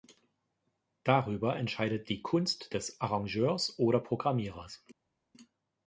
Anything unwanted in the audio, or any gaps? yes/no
no